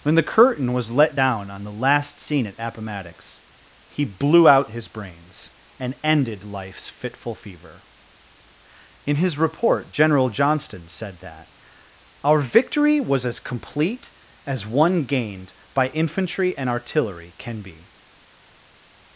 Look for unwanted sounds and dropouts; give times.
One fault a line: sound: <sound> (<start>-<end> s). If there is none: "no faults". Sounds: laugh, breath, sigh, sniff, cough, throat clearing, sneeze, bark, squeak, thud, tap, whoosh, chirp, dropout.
no faults